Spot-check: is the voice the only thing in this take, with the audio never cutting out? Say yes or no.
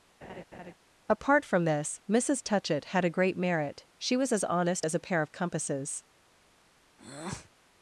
no